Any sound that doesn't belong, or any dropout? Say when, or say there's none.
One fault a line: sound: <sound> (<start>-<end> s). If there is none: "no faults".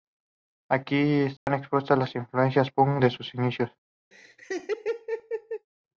sound: dropout (1.4-1.5 s)
sound: laugh (4.1-5.7 s)